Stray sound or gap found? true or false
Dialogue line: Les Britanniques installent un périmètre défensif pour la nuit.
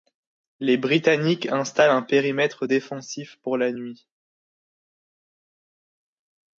false